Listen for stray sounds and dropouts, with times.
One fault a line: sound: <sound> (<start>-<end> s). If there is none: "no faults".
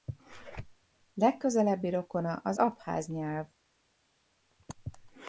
no faults